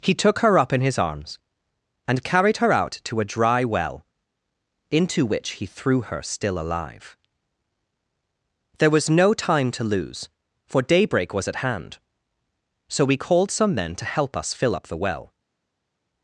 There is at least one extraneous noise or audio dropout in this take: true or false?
false